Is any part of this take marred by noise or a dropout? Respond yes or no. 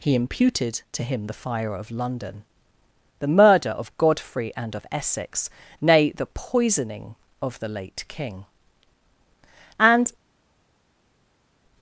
no